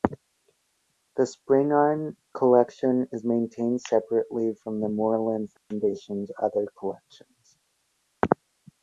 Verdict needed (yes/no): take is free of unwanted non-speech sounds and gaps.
no